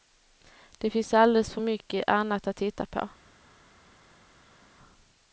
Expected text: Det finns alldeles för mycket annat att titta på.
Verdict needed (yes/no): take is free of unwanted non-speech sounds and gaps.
yes